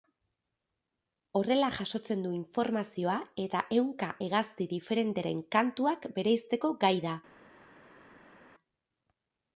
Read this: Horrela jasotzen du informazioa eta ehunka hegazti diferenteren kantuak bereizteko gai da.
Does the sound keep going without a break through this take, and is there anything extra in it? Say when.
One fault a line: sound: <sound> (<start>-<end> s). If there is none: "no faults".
no faults